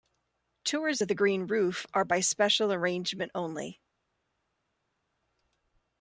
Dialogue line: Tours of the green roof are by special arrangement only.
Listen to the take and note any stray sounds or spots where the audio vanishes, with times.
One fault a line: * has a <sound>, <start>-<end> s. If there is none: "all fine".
all fine